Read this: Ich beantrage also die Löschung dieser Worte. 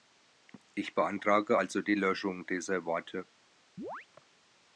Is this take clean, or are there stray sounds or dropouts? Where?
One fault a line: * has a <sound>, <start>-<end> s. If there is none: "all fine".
* has a chirp, 3.8-4.1 s